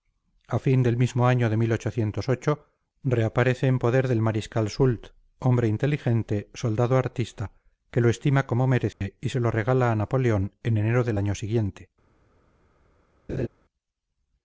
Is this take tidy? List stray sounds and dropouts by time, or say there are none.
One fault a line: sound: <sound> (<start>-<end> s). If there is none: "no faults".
sound: dropout (8.9-9.0 s)
sound: laugh (13.3-13.5 s)